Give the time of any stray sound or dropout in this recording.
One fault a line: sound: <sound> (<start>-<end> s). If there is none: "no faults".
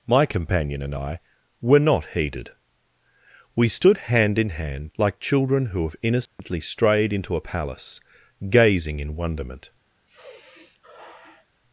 sound: dropout (6.3-6.4 s)
sound: sigh (10.1-11.5 s)